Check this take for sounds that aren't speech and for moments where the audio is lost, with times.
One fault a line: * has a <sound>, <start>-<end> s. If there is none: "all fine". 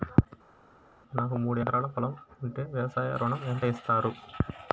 all fine